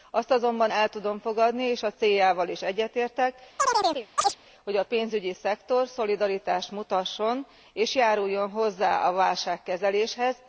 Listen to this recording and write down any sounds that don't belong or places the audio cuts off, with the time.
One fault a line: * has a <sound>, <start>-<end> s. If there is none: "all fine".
* has a chirp, 3.6-4.4 s